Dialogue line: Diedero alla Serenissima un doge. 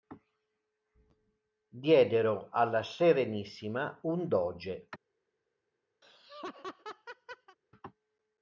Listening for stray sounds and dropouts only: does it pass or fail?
fail